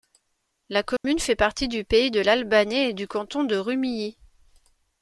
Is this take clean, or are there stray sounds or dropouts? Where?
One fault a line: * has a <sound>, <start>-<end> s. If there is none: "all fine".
* has a dropout, 1.0-1.0 s